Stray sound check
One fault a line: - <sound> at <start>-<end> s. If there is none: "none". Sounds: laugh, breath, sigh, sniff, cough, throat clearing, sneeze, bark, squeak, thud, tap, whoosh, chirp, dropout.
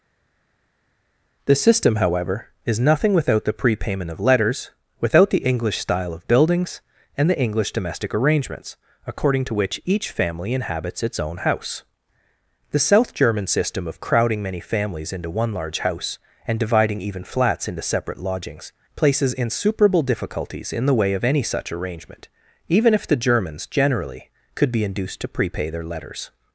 none